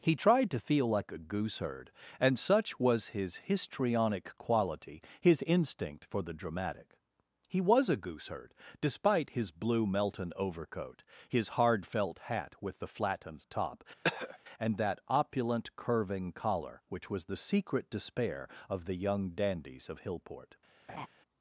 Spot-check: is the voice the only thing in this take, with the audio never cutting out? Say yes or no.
no